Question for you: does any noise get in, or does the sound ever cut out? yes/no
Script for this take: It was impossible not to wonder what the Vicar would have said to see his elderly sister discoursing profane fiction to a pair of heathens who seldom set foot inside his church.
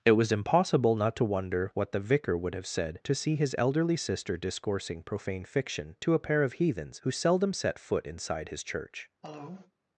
yes